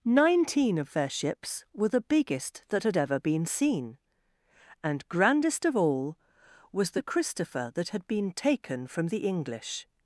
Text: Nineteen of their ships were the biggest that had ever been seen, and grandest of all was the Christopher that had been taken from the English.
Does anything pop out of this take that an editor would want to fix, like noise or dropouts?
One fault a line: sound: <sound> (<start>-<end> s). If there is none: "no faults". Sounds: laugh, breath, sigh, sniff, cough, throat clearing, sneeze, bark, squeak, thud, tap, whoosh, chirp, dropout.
no faults